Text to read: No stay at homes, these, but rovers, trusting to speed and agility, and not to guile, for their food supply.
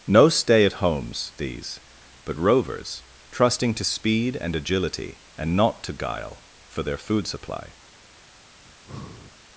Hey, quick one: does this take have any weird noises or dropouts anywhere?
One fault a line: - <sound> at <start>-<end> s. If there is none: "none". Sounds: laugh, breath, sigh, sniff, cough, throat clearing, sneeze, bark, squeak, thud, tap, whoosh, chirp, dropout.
- breath at 8.6-9.3 s